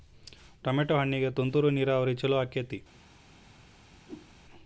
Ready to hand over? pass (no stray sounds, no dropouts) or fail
fail